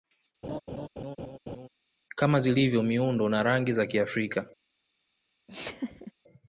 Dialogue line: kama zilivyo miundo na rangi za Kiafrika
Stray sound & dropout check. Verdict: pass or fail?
fail